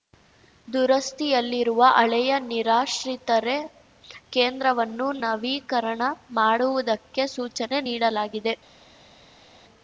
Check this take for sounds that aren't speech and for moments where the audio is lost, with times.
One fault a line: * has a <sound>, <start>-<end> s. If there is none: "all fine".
all fine